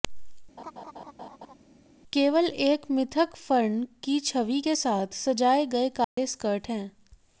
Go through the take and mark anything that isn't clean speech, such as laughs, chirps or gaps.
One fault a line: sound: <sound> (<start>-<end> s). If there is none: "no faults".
sound: laugh (0.6-1.5 s)
sound: dropout (6.0-6.2 s)